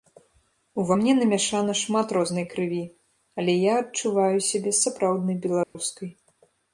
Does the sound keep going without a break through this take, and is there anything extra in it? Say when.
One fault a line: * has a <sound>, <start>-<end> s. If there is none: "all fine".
* has a dropout, 5.6-5.8 s